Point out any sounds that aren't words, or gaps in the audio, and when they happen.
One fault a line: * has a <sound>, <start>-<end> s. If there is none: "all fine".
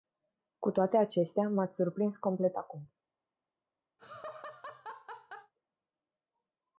* has a laugh, 4.0-5.5 s